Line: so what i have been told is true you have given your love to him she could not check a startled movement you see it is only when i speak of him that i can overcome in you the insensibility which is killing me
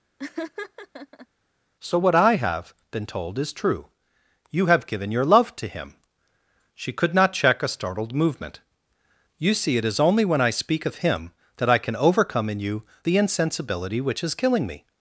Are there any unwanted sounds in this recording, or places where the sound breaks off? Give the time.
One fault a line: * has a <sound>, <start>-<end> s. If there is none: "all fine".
* has a laugh, 0.2-1.3 s